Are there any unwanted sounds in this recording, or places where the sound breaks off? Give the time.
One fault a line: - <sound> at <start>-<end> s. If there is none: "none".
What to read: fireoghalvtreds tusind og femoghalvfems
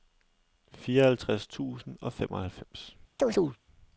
- chirp at 3.2-3.6 s